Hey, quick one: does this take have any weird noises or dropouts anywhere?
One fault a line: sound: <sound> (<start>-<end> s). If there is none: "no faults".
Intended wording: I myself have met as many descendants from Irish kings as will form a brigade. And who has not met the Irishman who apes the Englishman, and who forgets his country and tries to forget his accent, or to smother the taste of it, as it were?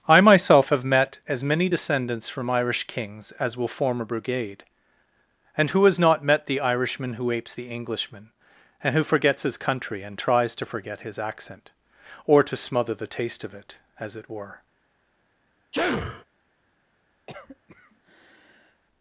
sound: sneeze (15.7-16.2 s)
sound: cough (17.3-18.8 s)